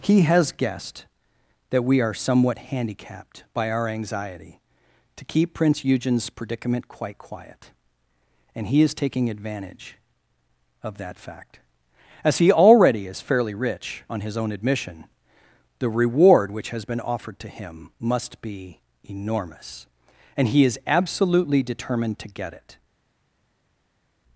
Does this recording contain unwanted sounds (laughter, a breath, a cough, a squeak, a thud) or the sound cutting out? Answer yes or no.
no